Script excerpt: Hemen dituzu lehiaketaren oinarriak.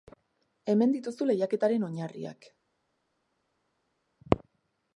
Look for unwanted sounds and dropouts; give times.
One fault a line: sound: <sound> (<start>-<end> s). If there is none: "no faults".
no faults